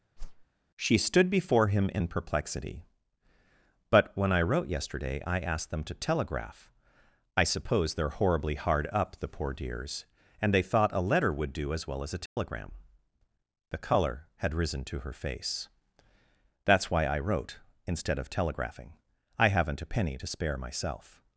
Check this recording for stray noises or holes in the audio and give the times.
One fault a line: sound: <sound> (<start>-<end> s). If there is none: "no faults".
sound: whoosh (0.2-0.5 s)
sound: dropout (12.3-12.4 s)